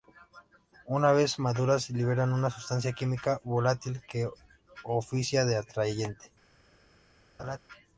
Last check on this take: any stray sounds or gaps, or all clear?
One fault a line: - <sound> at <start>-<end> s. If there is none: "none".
- laugh at 7.4-7.6 s